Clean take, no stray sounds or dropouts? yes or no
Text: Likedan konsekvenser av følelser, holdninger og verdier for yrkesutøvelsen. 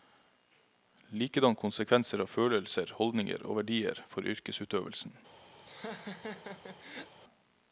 no